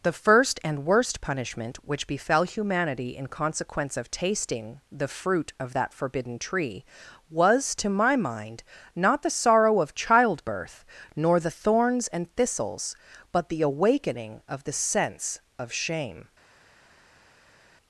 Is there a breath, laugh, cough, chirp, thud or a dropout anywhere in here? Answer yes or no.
no